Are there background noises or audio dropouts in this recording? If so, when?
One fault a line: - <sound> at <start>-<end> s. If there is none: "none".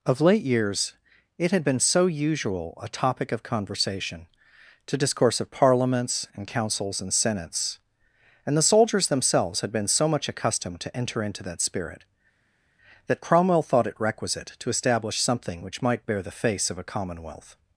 none